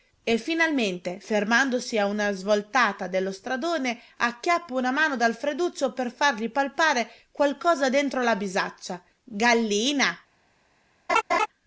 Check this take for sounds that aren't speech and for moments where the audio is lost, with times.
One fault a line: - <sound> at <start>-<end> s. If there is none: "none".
- laugh at 11.1-11.5 s